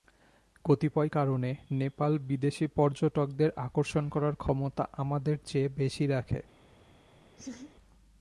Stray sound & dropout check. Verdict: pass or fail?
fail